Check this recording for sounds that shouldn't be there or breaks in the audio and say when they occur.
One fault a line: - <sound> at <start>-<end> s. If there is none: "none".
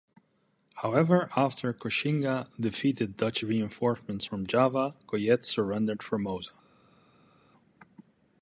none